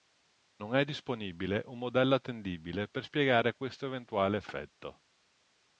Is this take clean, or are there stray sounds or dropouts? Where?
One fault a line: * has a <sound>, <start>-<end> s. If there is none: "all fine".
all fine